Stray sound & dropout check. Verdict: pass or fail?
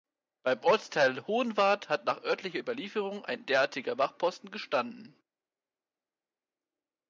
pass